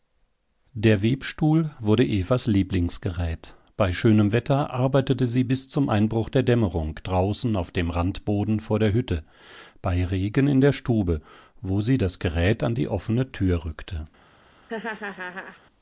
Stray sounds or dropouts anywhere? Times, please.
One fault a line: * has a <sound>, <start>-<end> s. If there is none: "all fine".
* has a laugh, 14.7-15.6 s